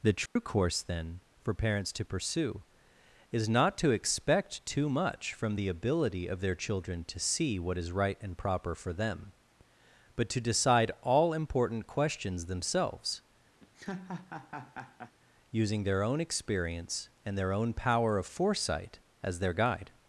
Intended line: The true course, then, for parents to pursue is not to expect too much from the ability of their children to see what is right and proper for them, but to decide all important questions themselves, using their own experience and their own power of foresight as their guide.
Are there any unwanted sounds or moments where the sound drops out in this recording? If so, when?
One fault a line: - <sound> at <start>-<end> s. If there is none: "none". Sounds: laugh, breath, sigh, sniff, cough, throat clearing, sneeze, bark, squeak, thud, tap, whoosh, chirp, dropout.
- dropout at 0.3-0.4 s
- laugh at 13.6-15.1 s